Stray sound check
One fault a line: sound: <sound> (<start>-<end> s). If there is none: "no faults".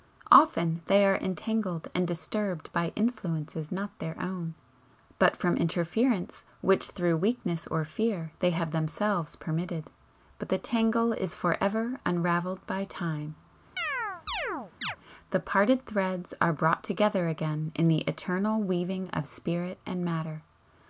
sound: chirp (13.8-15.0 s)